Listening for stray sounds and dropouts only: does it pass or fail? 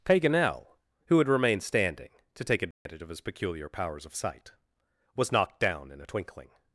fail